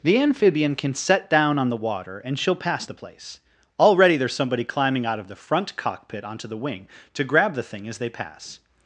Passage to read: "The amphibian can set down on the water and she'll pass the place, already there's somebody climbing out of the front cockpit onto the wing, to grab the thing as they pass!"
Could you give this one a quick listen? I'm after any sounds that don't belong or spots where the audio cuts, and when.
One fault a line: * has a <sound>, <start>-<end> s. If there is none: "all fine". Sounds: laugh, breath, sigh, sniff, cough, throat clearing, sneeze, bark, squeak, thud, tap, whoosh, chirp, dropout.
all fine